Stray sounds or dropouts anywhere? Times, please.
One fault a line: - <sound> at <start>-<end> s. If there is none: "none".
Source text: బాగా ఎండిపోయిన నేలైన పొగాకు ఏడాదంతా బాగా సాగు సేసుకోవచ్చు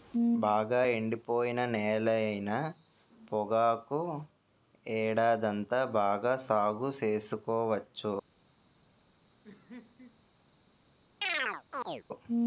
- laugh at 9.4-10.2 s
- chirp at 11.2-12.0 s